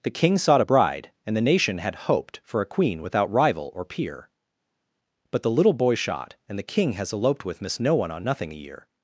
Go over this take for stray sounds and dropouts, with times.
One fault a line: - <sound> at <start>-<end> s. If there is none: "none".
none